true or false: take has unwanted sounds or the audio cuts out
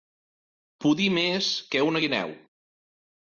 false